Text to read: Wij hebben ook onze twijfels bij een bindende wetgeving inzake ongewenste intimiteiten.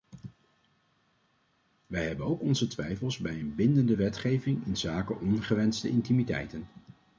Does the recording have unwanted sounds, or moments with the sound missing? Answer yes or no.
no